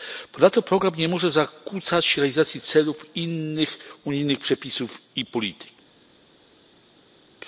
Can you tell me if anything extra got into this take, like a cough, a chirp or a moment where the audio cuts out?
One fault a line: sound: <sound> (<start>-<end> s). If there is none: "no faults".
no faults